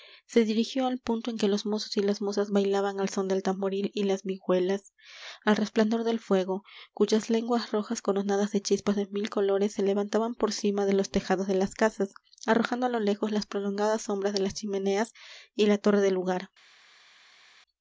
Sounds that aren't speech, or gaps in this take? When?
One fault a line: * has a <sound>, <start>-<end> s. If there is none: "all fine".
all fine